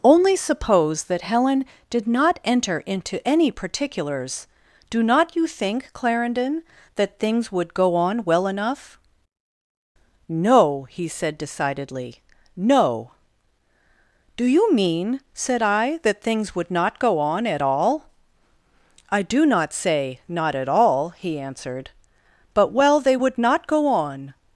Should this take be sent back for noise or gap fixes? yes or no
no